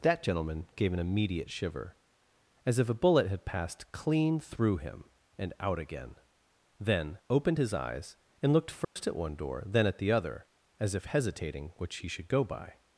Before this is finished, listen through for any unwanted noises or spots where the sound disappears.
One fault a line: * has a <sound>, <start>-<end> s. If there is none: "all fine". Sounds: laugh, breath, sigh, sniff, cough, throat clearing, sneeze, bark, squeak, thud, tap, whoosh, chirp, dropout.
* has a dropout, 8.8-9.0 s